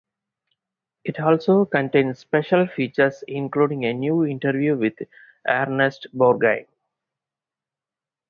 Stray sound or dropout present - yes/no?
no